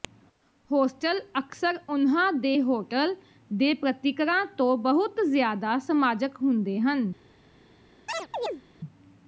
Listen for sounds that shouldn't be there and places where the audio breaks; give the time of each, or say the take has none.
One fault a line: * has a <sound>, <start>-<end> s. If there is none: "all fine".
* has a chirp, 8.1-8.6 s